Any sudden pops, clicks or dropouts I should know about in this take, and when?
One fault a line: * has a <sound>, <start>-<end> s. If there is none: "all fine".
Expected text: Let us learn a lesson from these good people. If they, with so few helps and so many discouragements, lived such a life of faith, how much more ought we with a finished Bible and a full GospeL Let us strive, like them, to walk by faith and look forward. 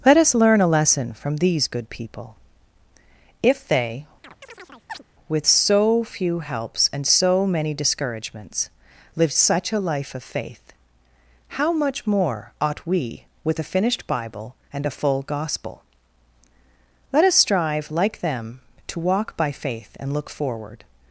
* has a chirp, 4.2-5.0 s